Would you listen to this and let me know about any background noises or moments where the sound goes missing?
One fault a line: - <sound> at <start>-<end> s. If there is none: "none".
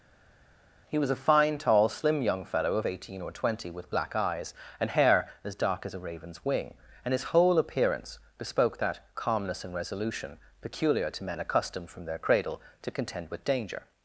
none